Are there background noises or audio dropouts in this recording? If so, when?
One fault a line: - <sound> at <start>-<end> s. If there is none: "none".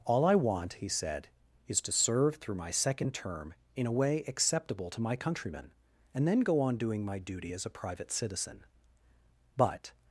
none